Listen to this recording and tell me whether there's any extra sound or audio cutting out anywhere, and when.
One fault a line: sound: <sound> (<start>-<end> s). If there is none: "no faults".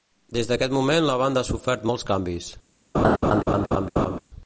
sound: laugh (2.9-4.2 s)